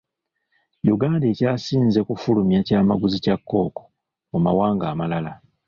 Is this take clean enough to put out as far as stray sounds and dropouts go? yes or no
yes